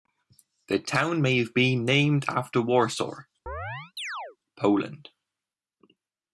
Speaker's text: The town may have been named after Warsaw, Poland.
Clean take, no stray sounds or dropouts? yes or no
no